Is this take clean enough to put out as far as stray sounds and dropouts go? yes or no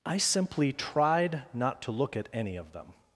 yes